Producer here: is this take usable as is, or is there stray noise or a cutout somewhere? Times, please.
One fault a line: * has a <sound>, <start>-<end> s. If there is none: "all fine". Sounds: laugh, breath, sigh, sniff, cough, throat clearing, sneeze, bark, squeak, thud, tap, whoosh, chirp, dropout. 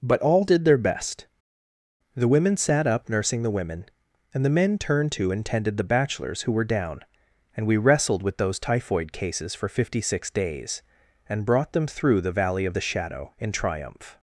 all fine